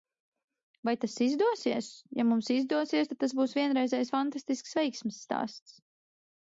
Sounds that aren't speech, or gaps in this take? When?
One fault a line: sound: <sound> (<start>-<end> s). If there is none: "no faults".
no faults